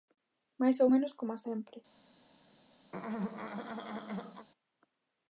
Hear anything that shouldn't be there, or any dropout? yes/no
yes